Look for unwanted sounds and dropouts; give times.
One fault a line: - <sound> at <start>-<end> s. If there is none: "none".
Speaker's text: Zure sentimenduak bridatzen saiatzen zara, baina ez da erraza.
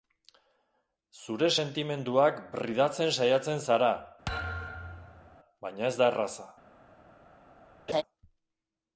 - thud at 4.3-5.4 s
- laugh at 7.9-8.0 s